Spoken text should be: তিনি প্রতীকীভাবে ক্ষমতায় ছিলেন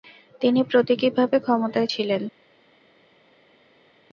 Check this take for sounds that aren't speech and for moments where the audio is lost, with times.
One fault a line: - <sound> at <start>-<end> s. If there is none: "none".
none